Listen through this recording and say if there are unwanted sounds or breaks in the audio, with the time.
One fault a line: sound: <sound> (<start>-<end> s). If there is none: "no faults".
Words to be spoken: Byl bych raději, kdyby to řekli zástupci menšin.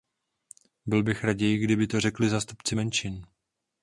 no faults